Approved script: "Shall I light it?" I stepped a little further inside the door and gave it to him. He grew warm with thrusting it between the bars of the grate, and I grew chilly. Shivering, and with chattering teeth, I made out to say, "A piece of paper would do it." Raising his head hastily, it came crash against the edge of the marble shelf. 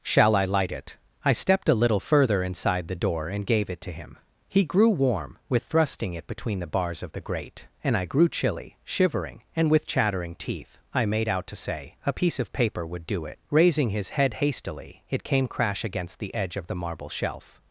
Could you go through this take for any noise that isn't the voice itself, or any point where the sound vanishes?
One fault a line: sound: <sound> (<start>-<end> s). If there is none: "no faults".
no faults